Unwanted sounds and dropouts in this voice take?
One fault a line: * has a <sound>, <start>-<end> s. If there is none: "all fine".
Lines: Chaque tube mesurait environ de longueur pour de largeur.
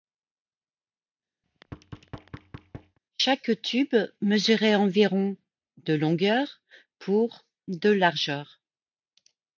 * has a thud, 1.4-3.0 s